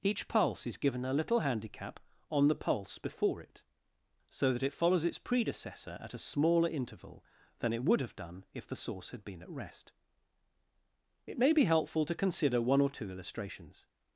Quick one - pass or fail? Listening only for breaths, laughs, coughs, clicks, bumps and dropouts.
pass